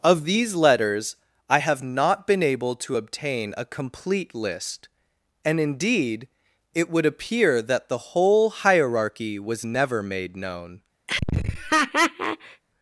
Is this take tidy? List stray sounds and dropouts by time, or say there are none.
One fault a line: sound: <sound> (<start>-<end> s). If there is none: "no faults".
sound: laugh (11.1-12.6 s)